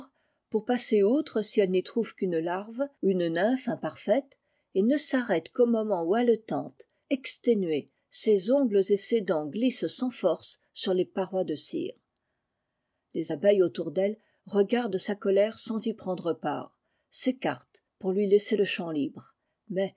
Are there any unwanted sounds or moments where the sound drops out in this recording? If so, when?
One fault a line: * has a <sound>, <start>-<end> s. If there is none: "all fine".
all fine